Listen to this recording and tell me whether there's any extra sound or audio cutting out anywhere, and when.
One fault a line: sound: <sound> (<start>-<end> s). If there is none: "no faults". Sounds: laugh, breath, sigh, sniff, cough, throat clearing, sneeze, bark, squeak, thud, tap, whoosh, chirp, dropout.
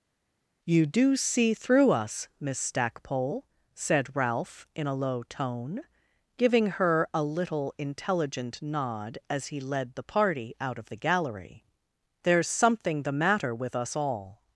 no faults